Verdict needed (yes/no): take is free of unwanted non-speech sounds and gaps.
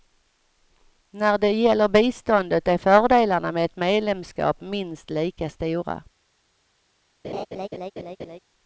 no